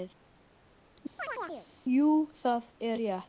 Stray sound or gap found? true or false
true